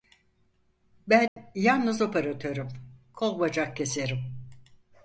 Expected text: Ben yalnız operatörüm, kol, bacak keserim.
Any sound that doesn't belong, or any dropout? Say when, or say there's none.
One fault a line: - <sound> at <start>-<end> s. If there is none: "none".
- dropout at 1.3-1.4 s